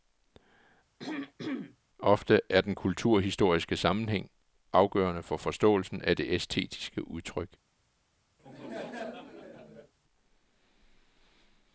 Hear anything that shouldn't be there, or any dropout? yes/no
yes